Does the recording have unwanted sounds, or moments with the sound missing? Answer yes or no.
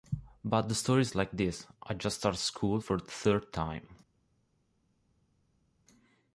no